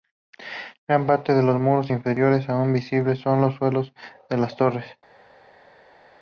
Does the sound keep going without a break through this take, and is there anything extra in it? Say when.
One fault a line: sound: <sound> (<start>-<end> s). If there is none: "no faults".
no faults